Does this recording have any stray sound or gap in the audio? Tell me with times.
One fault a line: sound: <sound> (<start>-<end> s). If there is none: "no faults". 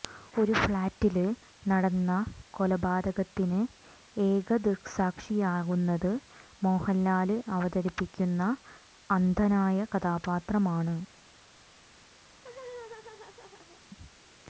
sound: laugh (12.3-13.8 s)